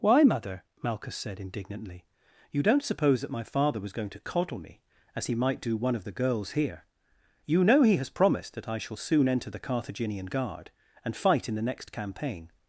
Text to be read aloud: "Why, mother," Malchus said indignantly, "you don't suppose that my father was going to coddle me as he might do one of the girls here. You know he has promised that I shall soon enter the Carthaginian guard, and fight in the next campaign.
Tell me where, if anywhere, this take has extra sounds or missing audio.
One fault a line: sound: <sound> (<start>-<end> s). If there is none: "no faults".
no faults